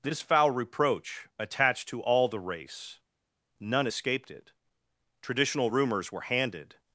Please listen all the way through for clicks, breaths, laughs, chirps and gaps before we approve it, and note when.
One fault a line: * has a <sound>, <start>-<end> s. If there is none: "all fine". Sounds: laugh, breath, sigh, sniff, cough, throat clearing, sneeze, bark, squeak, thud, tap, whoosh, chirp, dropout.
all fine